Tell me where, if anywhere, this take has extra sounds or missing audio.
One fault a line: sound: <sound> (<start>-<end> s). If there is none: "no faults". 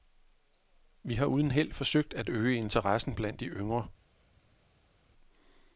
no faults